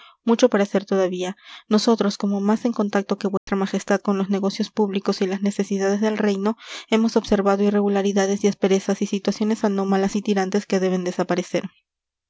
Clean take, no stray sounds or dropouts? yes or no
no